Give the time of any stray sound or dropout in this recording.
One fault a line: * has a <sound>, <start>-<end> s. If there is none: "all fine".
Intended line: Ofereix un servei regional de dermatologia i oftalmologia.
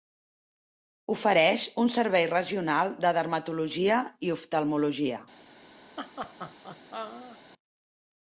* has a laugh, 6.0-7.4 s